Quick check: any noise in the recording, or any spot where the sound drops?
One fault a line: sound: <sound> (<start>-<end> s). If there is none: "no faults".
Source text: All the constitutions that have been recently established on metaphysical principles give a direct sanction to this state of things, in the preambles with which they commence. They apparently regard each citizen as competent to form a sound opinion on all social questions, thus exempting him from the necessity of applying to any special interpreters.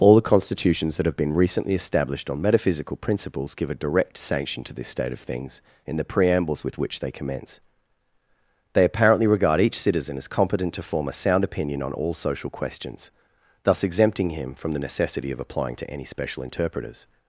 no faults